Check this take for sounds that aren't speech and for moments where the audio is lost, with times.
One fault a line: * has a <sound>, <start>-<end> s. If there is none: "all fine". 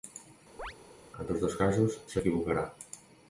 * has a chirp, 0.6-0.7 s